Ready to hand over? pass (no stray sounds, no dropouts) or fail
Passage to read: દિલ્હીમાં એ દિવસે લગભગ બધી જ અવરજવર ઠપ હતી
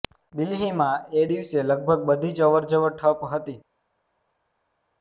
pass